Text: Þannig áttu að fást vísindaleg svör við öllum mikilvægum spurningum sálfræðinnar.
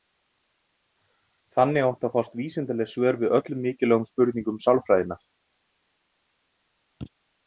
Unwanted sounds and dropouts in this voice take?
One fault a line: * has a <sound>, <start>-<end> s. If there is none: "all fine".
all fine